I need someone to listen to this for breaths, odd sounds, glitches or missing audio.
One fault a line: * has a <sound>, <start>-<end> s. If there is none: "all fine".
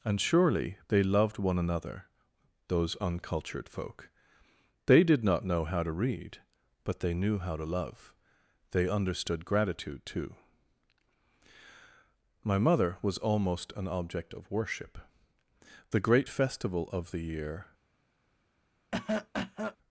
* has a cough, 18.9-19.8 s